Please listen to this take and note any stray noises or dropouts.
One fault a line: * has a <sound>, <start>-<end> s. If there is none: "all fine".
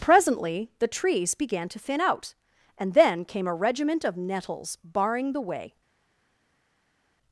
all fine